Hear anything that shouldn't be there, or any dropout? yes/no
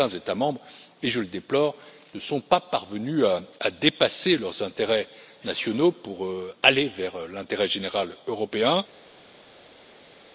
no